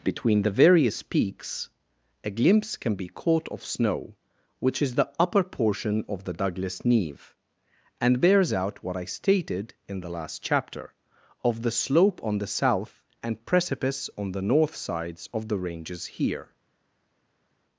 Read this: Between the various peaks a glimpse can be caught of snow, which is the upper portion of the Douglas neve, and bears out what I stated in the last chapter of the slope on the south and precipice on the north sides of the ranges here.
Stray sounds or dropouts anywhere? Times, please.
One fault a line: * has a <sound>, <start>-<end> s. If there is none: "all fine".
all fine